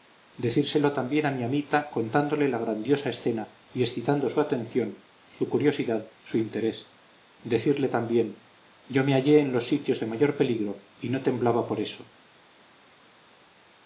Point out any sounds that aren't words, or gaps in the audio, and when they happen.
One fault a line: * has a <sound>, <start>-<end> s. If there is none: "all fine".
all fine